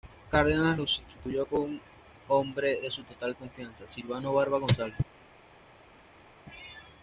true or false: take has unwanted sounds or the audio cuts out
false